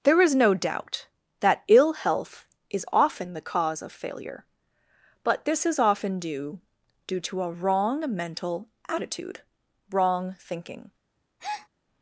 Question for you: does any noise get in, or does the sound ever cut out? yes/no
yes